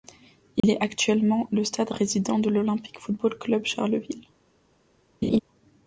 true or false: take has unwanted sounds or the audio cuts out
true